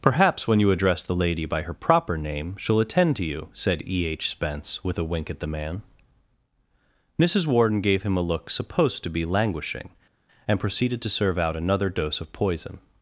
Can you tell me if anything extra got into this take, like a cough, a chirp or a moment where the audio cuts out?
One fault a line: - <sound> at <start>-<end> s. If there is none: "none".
none